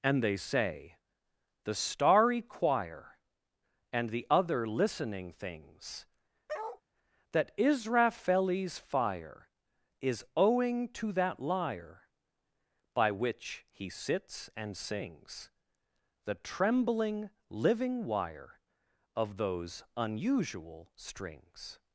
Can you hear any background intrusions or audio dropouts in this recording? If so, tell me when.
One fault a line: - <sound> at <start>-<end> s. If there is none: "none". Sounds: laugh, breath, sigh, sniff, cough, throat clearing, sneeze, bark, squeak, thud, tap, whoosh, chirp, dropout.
- bark at 6.5-6.8 s